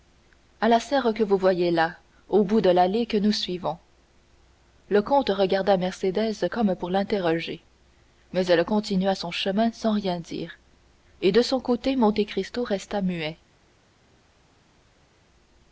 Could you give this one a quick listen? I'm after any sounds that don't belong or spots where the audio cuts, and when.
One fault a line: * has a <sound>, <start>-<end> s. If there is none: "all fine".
all fine